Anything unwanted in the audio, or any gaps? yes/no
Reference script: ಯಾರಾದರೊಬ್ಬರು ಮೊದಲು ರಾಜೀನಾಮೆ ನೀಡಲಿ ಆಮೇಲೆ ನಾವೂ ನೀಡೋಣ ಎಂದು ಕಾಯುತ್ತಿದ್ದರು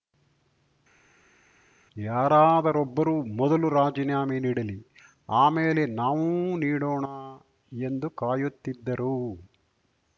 no